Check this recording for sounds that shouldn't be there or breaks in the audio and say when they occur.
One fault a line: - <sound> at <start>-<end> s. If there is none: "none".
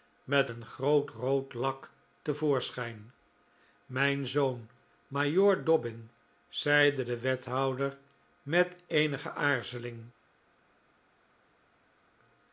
none